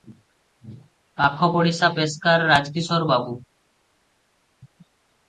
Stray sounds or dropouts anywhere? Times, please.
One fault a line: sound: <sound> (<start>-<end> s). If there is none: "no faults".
no faults